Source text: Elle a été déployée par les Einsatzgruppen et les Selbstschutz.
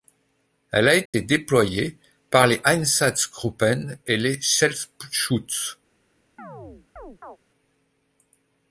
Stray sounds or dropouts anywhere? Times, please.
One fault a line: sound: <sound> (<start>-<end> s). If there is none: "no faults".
sound: dropout (1.1-1.1 s)
sound: chirp (6.4-7.4 s)